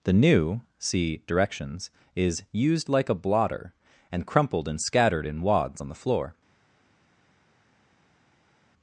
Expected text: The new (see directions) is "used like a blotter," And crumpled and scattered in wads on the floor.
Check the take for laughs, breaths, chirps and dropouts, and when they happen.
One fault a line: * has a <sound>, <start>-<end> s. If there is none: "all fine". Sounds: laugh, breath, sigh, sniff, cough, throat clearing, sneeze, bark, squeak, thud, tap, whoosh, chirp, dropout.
all fine